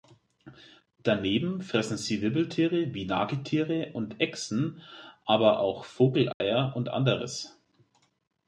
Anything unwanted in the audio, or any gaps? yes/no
yes